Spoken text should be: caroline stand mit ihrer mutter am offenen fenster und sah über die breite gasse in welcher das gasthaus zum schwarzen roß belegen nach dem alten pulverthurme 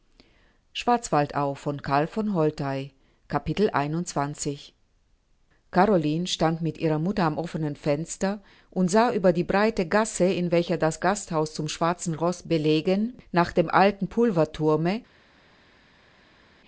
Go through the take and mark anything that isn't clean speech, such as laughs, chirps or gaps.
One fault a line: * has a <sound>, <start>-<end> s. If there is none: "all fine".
all fine